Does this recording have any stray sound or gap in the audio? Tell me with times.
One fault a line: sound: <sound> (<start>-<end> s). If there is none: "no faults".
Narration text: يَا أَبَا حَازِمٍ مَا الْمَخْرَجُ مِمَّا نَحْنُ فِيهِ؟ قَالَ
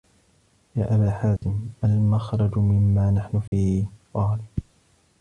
sound: dropout (1.4-1.4 s)
sound: dropout (3.5-3.5 s)